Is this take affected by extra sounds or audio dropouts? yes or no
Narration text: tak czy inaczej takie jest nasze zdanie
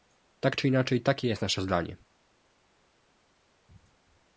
no